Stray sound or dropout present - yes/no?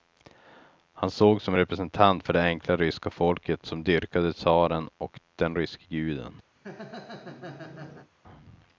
yes